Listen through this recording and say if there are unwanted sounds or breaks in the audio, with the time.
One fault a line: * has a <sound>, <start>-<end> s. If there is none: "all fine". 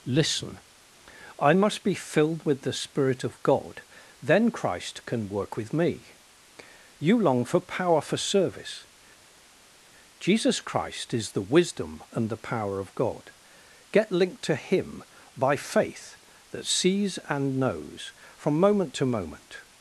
all fine